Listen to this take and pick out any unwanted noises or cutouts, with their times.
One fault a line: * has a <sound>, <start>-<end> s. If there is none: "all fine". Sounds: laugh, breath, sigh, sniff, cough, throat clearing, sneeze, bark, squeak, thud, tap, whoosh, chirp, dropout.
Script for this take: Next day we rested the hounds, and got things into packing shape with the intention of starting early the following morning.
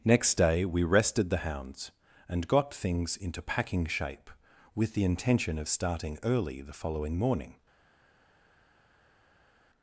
all fine